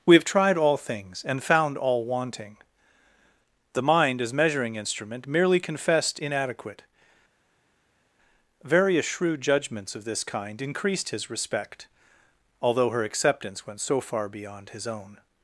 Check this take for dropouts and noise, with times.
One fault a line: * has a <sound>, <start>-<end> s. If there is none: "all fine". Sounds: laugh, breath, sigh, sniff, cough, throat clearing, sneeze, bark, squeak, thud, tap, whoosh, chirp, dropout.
all fine